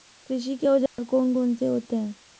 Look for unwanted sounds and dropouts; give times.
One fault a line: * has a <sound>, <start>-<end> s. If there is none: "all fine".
* has a dropout, 0.9-1.0 s